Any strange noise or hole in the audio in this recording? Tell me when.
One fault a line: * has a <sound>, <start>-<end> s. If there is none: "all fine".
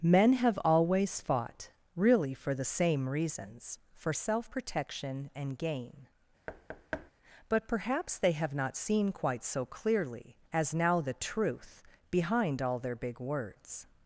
* has a thud, 6.5-7.1 s